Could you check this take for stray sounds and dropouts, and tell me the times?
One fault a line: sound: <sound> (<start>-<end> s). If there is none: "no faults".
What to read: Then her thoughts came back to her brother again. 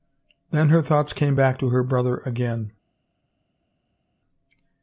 no faults